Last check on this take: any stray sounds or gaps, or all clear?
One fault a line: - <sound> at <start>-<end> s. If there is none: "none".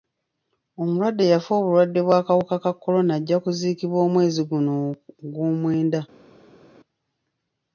none